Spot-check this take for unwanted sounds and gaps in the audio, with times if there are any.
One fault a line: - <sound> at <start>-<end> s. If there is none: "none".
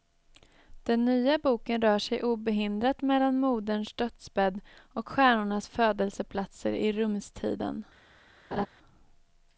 - laugh at 8.5-8.7 s